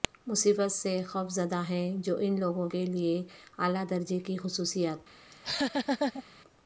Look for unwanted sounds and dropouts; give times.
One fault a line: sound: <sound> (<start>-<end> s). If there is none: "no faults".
sound: laugh (5.3-6.2 s)